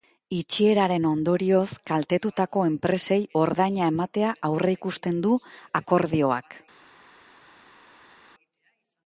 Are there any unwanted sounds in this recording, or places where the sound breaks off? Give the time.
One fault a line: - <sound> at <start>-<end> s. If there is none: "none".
none